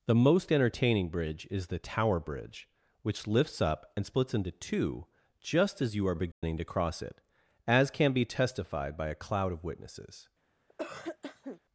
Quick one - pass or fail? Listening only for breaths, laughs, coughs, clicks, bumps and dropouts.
fail